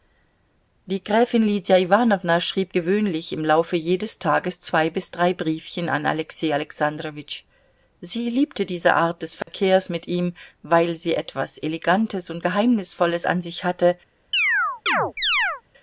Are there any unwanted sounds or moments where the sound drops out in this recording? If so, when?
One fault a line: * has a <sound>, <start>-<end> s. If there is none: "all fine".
* has a dropout, 9.4-9.5 s
* has a chirp, 14.3-15.6 s